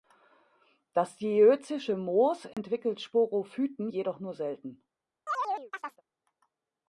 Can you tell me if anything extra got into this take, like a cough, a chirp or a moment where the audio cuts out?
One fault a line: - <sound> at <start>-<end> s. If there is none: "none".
- dropout at 2.5-2.6 s
- chirp at 5.3-6.0 s